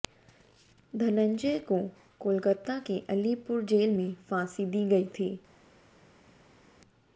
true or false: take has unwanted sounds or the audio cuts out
false